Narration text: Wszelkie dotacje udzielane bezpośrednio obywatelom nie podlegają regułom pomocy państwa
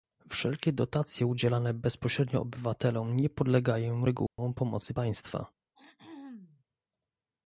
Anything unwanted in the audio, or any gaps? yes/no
yes